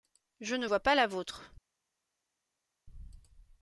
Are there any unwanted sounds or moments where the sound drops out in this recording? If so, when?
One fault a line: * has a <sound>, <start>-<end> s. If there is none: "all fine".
all fine